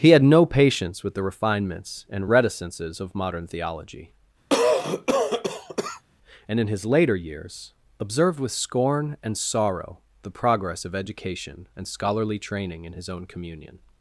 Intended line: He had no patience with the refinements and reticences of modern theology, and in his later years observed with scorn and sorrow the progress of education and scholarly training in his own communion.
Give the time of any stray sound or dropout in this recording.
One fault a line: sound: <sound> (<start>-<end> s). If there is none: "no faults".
sound: cough (4.5-6.0 s)